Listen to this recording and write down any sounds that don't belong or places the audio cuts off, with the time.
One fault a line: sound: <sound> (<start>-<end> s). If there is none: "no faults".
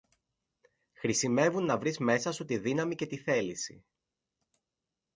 no faults